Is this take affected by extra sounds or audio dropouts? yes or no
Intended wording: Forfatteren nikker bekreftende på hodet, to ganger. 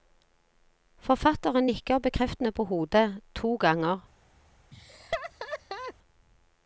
yes